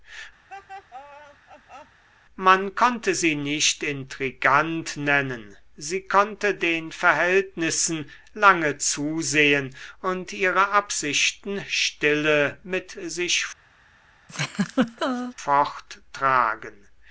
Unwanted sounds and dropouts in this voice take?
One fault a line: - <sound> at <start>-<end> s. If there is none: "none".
- laugh at 0.5-2.0 s
- laugh at 14.3-15.3 s